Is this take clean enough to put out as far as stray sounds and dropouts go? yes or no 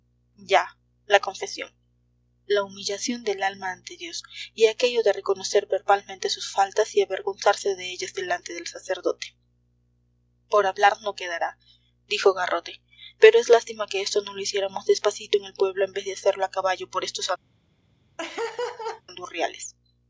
no